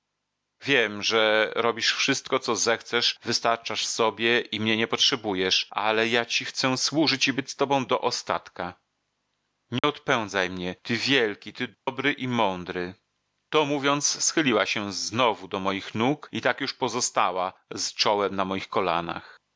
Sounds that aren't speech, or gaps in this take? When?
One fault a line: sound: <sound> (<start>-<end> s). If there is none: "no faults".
sound: dropout (9.8-9.8 s)
sound: dropout (11.7-11.9 s)